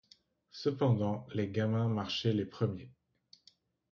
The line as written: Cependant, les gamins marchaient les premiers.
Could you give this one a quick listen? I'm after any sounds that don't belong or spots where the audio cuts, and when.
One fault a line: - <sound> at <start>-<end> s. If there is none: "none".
none